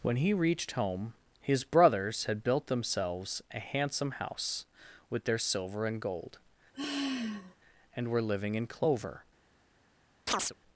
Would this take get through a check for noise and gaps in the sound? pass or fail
fail